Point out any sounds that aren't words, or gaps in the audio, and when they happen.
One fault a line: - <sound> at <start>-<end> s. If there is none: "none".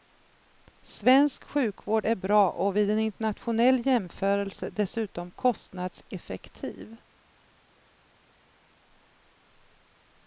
none